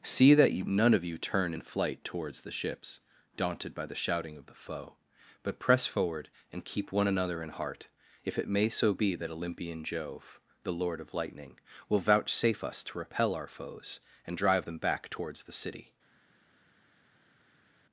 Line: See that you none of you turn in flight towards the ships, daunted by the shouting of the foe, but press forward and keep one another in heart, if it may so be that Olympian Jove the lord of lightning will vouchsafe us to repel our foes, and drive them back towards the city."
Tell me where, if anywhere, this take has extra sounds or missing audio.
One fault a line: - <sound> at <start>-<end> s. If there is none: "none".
none